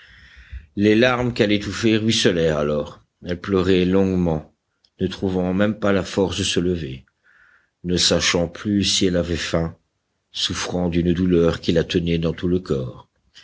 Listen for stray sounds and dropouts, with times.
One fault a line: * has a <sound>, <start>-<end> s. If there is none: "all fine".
all fine